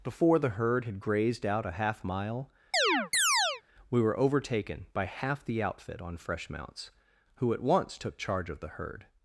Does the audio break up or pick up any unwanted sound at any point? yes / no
yes